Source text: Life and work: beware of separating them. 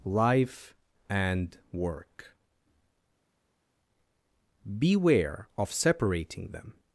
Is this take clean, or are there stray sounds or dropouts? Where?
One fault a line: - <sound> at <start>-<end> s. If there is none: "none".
none